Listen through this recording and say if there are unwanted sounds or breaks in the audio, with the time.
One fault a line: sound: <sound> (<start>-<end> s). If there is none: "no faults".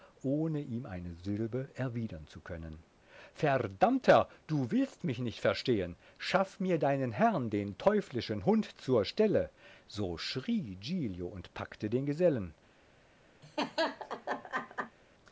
sound: laugh (13.4-15.0 s)